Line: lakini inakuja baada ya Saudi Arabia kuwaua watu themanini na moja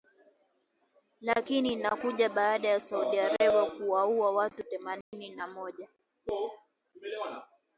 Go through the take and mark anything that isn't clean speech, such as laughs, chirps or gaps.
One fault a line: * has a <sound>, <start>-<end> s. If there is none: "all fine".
* has a dropout, 5.0-5.1 s